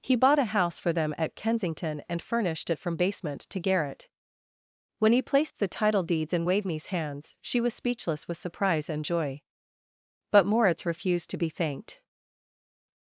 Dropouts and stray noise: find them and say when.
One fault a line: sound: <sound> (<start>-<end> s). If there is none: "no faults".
no faults